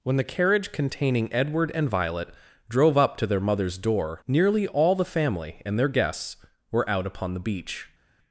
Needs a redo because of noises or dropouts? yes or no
no